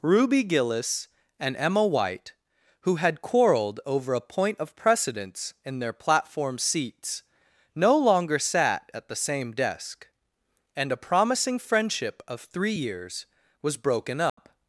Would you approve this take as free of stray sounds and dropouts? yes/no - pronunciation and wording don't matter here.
no